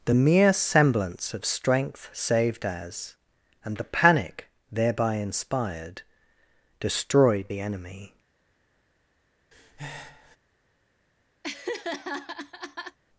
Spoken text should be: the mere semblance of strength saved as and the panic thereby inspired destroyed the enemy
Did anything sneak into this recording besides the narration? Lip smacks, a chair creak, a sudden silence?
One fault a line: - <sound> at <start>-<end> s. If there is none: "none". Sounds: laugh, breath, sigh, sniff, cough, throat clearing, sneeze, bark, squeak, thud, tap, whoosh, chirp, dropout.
- breath at 9.5-10.4 s
- laugh at 11.4-13.0 s